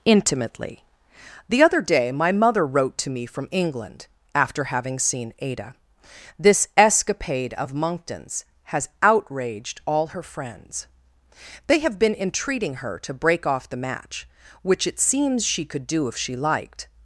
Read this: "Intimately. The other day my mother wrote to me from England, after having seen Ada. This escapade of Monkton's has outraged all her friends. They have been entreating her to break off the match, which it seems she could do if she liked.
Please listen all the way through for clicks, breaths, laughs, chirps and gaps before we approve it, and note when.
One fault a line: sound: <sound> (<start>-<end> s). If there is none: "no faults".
no faults